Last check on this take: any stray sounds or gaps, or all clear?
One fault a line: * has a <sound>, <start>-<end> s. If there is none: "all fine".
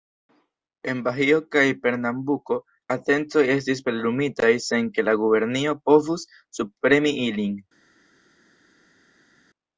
all fine